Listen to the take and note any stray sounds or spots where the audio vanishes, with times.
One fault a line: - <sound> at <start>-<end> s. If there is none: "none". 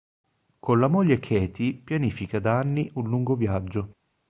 none